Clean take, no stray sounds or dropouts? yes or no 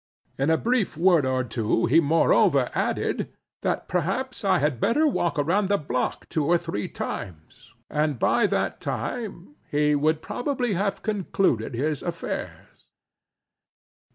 yes